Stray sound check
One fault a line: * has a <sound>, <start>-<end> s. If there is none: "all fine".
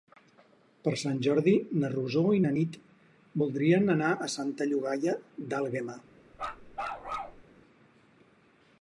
* has a bark, 6.3-7.4 s